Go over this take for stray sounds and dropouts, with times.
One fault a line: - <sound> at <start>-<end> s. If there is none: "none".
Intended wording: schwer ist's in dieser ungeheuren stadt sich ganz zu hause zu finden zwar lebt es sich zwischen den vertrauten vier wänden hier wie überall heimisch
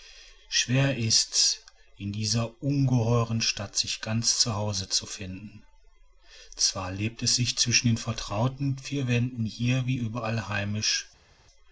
none